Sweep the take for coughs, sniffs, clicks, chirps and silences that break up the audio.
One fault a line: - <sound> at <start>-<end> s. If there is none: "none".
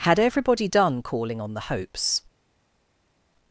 none